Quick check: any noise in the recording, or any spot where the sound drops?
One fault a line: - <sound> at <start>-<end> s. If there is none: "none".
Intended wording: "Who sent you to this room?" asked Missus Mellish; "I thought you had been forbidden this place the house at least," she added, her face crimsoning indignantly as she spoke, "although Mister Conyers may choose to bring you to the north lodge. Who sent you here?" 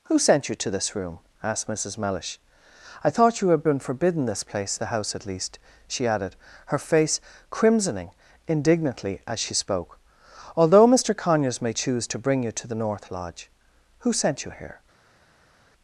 none